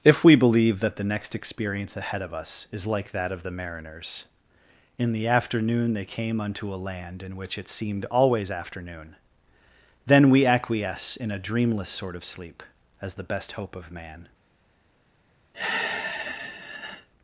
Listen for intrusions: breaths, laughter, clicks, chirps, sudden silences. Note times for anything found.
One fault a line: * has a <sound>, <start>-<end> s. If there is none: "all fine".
* has a sigh, 15.5-17.1 s